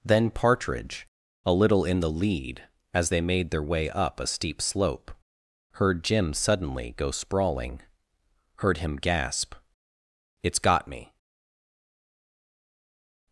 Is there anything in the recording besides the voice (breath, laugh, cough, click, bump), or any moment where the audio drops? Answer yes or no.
no